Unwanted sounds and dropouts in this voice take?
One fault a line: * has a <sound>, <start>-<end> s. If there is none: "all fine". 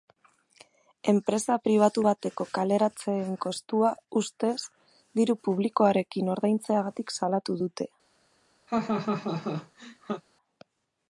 * has a laugh, 8.7-10.2 s